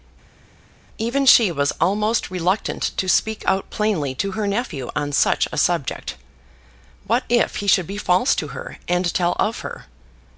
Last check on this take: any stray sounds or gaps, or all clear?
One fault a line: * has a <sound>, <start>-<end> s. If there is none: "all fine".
all fine